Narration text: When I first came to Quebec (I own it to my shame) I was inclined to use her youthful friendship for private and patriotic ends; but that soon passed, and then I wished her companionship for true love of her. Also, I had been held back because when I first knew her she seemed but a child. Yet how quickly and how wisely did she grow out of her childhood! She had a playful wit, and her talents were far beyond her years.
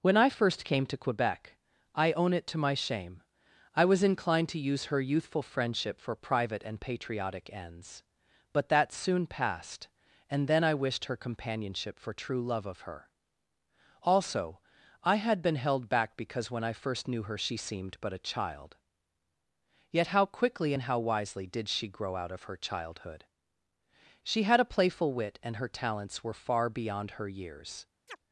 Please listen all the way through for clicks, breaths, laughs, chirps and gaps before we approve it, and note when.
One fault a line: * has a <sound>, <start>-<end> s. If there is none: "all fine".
* has a chirp, 28.1-28.2 s